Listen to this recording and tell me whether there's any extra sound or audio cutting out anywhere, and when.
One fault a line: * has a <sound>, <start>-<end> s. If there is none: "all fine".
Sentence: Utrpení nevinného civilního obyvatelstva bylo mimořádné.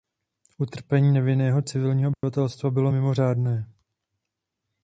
* has a dropout, 2.1-2.2 s